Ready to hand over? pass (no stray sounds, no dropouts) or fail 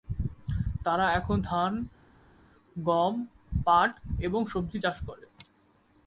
pass